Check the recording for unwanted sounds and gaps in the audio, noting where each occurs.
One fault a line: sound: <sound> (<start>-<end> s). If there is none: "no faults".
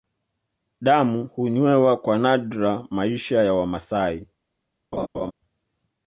sound: laugh (4.9-5.3 s)